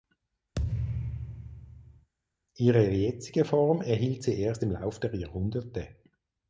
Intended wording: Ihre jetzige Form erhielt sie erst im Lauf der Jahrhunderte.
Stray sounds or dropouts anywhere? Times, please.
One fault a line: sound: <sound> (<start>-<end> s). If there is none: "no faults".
sound: thud (0.6-2.1 s)